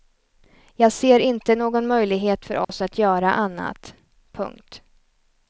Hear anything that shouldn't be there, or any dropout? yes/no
yes